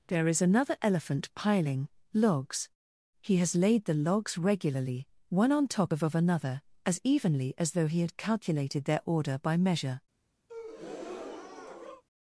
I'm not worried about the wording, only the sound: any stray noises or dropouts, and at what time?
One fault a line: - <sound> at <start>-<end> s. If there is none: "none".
- breath at 10.5-12.0 s